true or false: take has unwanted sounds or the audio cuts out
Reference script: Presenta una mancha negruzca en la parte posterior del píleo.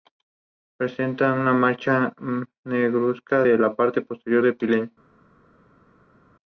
false